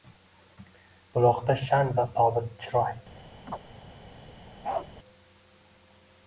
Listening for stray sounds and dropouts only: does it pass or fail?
fail